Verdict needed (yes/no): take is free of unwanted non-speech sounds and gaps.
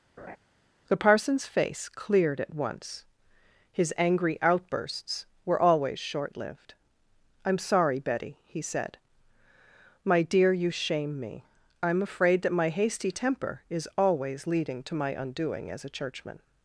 no